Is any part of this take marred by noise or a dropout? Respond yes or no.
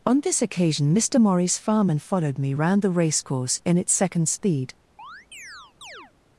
yes